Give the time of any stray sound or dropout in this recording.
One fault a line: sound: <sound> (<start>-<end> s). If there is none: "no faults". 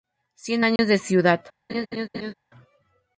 sound: dropout (0.8-0.8 s)
sound: laugh (1.7-2.3 s)